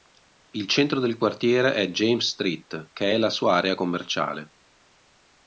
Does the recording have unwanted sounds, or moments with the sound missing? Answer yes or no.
no